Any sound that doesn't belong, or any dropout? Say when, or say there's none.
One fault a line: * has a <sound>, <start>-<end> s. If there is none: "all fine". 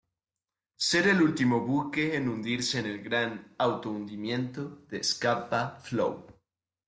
all fine